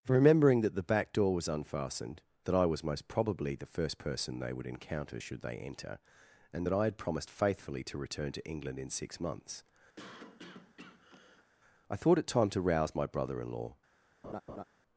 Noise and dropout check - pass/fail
fail